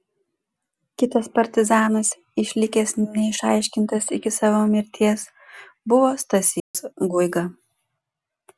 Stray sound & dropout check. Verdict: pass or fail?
fail